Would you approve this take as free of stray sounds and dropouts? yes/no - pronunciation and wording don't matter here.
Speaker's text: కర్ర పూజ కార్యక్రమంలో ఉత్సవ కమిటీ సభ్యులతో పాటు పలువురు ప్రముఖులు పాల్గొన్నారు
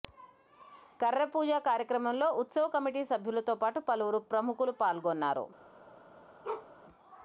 no